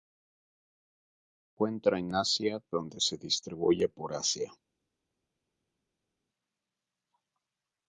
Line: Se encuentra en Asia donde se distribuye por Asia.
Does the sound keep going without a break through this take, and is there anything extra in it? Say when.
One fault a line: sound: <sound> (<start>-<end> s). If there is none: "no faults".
no faults